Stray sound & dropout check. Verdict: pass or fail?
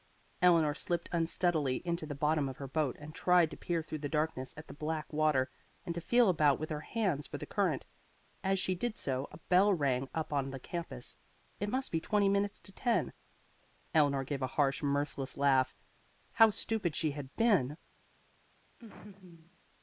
fail